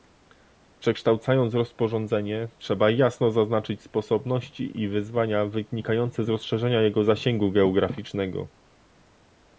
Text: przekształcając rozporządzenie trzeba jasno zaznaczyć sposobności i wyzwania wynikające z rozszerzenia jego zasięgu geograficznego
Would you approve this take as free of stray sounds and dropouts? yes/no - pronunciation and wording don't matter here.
yes